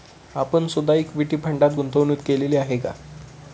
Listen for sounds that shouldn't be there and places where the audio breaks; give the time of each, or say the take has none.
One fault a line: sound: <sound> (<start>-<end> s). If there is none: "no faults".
no faults